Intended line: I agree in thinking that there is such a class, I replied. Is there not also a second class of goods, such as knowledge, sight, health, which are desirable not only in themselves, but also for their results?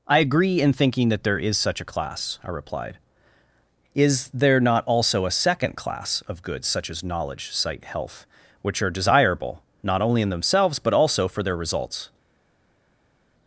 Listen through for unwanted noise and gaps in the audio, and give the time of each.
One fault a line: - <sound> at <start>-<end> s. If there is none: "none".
none